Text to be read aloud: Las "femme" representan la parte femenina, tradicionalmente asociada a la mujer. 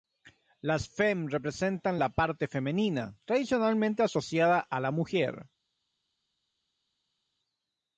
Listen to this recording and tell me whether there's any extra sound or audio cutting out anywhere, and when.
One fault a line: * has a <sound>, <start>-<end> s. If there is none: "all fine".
all fine